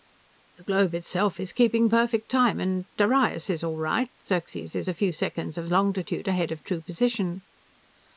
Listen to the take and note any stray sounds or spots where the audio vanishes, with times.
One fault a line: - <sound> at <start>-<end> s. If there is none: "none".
none